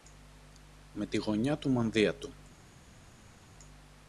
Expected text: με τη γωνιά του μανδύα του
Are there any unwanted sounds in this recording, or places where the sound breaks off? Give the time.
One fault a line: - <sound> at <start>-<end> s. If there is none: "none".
none